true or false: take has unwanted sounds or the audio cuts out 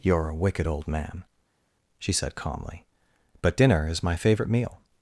false